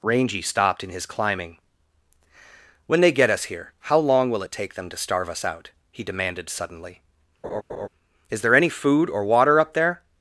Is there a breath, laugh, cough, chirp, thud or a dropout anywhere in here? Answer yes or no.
yes